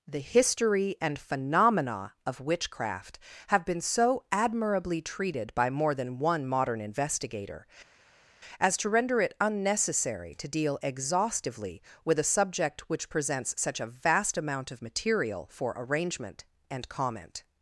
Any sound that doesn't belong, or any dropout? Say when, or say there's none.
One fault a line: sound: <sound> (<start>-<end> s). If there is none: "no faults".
no faults